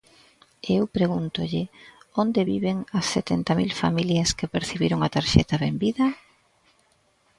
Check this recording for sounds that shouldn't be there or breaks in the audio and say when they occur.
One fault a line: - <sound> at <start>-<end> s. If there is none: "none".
none